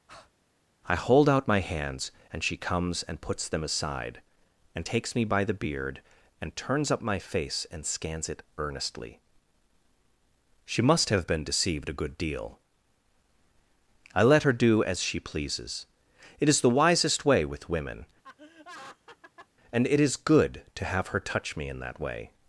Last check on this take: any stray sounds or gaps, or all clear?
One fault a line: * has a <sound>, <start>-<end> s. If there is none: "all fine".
* has a breath, 0.1-0.3 s
* has a laugh, 18.2-19.5 s